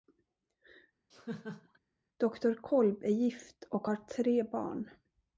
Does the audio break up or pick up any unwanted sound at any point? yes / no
yes